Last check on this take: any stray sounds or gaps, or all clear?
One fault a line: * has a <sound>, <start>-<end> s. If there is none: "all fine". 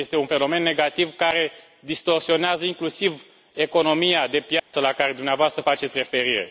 * has a dropout, 4.6-4.7 s